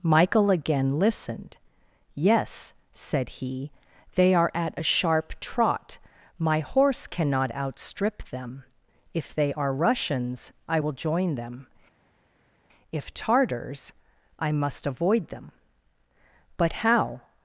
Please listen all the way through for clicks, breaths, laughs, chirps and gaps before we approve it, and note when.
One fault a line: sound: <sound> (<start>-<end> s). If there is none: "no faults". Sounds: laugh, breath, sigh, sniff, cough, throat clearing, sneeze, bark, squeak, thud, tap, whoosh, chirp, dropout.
no faults